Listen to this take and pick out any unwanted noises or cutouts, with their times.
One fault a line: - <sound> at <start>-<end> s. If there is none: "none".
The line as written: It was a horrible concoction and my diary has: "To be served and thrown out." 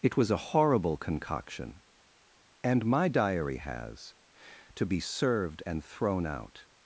none